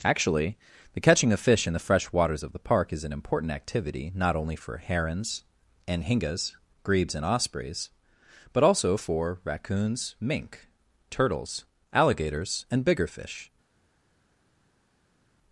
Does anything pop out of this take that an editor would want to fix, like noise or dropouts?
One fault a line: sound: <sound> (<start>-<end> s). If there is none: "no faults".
no faults